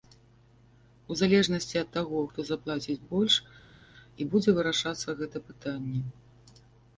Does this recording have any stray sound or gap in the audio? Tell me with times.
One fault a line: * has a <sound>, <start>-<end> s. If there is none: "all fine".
all fine